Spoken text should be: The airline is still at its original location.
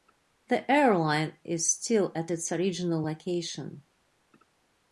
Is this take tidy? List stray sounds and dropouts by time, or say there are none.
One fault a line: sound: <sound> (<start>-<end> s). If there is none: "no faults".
no faults